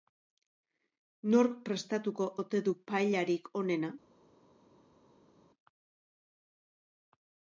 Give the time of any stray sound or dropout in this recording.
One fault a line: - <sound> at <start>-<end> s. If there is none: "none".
none